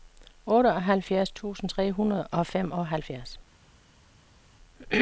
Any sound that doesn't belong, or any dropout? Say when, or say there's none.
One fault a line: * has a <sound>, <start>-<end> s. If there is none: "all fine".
all fine